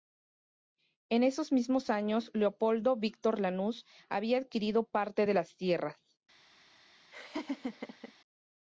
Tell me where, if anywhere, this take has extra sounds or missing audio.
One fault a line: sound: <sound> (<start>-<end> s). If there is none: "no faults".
sound: laugh (7.1-8.1 s)